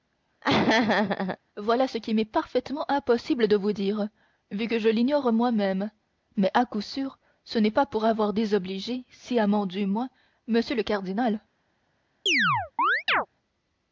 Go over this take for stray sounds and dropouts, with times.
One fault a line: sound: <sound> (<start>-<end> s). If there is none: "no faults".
sound: laugh (0.4-1.4 s)
sound: chirp (12.3-13.3 s)